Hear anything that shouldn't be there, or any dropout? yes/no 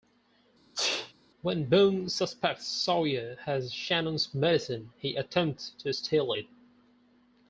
yes